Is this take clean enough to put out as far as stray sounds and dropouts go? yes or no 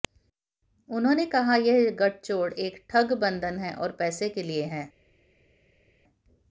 yes